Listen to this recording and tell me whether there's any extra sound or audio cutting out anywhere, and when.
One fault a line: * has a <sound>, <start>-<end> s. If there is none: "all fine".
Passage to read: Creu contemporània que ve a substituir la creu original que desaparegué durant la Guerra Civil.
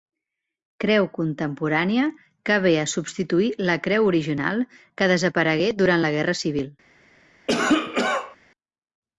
* has a cough, 7.5-8.4 s